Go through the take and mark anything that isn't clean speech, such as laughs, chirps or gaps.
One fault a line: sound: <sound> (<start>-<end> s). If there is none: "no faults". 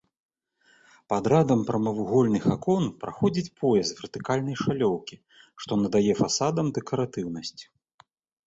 no faults